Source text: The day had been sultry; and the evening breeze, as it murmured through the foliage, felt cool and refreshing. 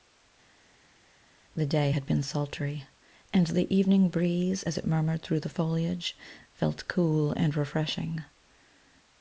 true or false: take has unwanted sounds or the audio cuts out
false